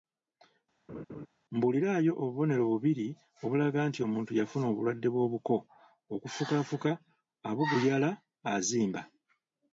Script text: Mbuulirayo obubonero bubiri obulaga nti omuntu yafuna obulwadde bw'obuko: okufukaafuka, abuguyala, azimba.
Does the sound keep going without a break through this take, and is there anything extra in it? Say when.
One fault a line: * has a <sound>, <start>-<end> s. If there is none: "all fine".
* has a laugh, 0.9-1.3 s